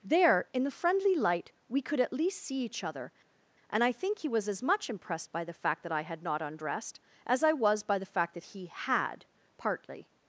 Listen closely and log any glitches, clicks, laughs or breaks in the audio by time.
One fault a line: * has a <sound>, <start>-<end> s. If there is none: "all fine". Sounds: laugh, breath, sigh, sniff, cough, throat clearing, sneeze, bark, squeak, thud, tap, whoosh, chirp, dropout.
all fine